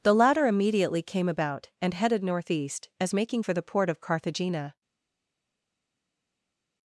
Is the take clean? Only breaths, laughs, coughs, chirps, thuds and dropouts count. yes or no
yes